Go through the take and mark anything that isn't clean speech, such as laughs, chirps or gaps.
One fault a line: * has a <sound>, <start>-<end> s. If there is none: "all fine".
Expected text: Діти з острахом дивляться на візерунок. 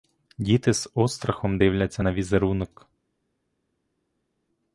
all fine